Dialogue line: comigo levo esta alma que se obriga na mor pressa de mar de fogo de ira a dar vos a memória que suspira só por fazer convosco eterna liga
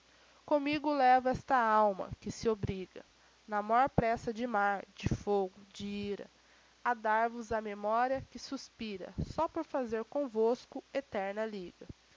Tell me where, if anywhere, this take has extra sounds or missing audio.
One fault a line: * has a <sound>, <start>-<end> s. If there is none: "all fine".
all fine